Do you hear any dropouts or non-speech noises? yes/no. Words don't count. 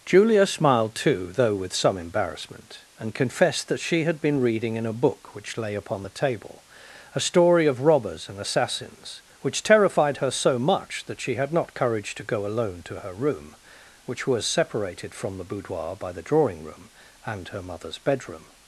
no